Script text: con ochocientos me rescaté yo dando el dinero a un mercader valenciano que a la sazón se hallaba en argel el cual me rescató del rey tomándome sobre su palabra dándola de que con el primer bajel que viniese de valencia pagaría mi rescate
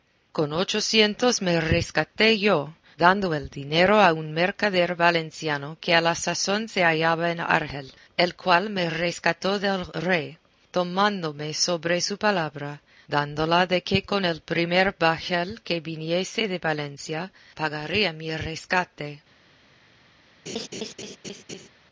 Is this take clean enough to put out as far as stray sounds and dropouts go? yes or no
no